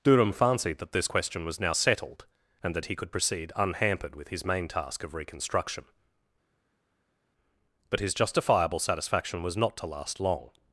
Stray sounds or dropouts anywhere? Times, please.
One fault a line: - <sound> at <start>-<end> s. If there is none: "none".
none